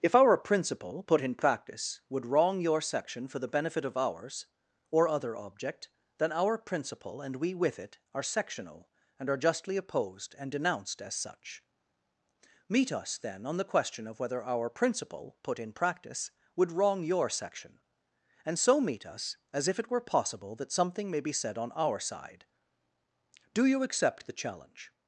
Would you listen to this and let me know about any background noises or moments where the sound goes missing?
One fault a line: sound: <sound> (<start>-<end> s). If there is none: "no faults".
no faults